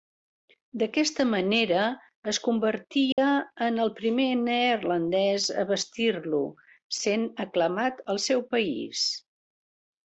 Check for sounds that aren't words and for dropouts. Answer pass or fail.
fail